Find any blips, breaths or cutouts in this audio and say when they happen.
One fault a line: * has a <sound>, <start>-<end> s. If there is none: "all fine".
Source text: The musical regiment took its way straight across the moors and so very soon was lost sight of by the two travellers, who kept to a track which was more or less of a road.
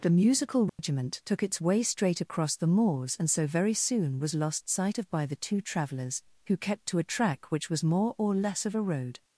* has a dropout, 0.7-0.8 s